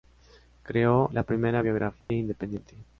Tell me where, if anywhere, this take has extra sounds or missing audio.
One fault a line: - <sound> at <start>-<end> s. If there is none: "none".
- dropout at 2.0-2.1 s